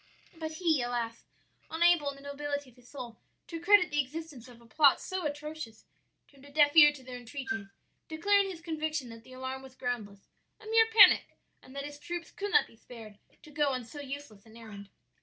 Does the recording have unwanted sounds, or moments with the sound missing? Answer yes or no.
no